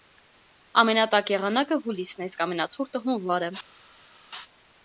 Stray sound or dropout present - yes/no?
no